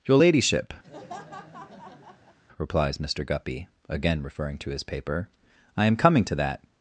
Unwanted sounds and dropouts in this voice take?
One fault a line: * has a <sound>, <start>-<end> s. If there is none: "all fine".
* has a laugh, 0.8-2.4 s